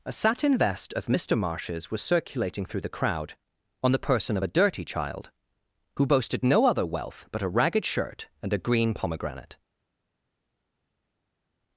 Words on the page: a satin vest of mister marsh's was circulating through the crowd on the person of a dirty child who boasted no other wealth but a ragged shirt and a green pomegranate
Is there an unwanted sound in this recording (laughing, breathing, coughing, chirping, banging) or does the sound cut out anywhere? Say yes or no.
no